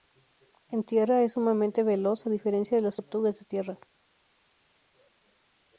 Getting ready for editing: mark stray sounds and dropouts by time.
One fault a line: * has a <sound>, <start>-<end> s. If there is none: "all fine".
all fine